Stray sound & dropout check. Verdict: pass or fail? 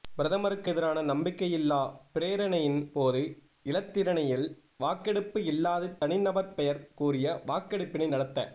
fail